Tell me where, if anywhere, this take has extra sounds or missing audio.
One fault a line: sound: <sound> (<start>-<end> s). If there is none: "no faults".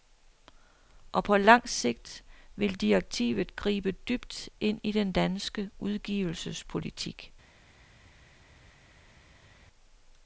no faults